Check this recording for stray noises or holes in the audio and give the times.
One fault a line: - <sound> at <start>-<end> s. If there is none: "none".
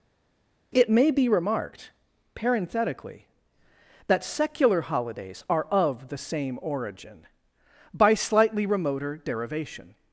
none